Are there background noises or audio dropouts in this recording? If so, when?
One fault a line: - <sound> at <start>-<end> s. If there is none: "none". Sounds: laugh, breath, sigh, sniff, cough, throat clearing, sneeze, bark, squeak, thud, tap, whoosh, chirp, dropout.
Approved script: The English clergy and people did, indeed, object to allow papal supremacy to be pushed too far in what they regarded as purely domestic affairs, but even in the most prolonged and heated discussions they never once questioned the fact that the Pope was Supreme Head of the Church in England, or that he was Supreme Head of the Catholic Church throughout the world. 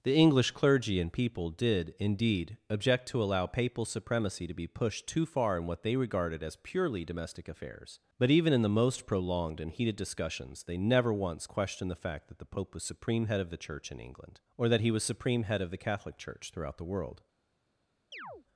- chirp at 18.1-18.5 s